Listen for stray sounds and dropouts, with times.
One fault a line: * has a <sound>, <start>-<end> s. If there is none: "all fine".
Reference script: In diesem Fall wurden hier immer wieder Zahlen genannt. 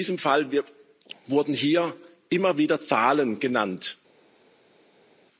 all fine